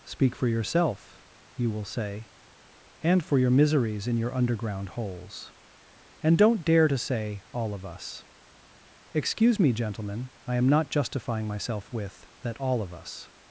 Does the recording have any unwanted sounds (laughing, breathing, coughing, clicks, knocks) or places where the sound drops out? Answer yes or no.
no